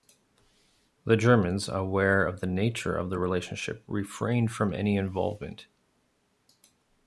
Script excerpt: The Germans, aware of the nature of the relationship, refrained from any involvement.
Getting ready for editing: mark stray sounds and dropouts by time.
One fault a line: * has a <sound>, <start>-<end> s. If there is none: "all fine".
all fine